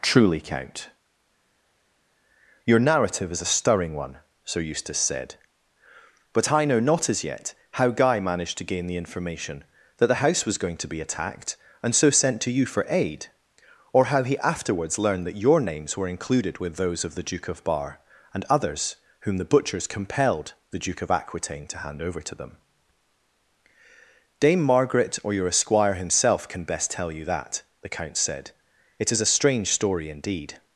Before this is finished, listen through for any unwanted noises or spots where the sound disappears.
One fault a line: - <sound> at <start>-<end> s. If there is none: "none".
none